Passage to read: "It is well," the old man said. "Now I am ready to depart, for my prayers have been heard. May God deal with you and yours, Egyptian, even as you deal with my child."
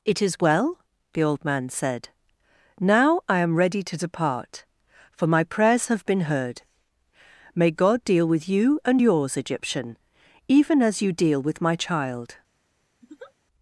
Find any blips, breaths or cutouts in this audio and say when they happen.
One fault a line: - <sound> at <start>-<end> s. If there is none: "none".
- laugh at 13.0-13.3 s